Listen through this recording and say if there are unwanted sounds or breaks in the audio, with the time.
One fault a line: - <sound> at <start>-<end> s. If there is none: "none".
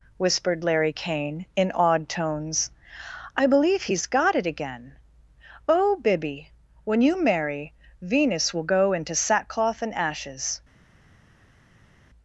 none